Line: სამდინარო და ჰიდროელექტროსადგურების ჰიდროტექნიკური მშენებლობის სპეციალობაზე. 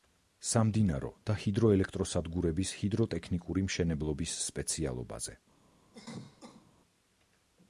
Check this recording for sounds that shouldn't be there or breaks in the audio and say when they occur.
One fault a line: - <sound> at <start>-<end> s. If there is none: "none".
- cough at 5.9-6.7 s